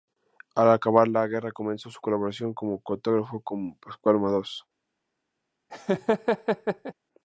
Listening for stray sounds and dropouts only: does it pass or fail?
fail